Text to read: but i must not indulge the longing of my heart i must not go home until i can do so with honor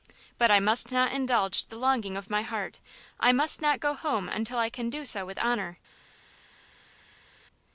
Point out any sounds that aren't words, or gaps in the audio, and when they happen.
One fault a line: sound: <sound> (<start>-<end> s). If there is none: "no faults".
no faults